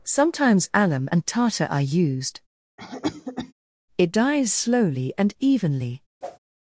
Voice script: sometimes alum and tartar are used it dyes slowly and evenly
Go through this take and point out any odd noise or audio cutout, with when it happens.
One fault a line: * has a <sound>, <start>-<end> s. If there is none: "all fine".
* has a cough, 2.8-3.5 s
* has a whoosh, 6.2-6.4 s